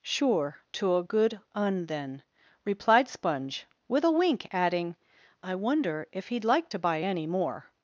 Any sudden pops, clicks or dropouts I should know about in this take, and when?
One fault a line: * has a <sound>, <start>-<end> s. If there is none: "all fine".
all fine